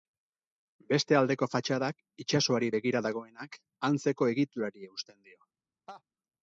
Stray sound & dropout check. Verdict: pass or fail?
fail